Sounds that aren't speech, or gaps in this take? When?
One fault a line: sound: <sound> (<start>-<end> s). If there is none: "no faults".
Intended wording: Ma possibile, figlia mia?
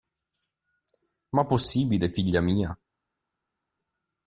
no faults